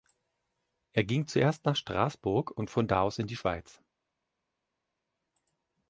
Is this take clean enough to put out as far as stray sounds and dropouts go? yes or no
yes